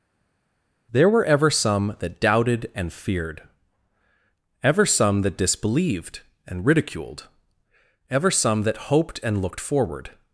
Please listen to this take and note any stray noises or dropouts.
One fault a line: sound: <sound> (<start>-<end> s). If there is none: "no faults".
no faults